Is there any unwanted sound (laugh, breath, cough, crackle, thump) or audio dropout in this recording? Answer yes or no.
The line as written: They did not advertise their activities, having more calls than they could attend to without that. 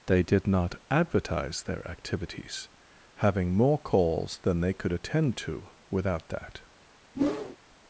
yes